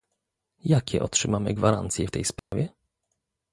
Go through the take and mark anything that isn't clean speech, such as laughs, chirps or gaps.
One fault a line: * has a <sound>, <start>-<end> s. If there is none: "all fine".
* has a dropout, 2.4-2.5 s